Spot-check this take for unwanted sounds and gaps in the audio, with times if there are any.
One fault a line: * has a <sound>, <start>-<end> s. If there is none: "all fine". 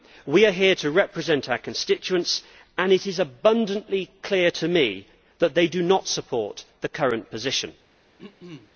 * has a throat clearing, 8.2-8.7 s